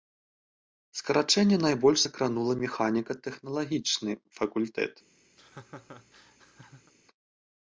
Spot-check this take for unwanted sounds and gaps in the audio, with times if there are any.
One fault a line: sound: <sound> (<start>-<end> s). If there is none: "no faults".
sound: laugh (5.4-6.9 s)